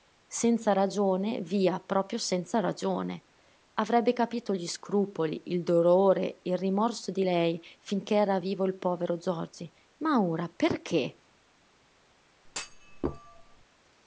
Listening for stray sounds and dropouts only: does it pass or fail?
fail